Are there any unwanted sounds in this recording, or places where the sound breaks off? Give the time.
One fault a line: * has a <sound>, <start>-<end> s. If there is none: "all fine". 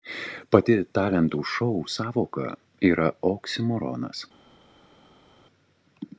all fine